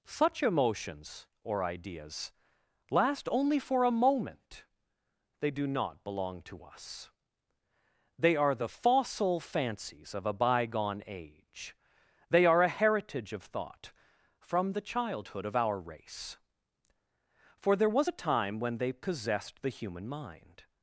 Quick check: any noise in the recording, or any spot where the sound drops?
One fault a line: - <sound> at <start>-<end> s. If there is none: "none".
none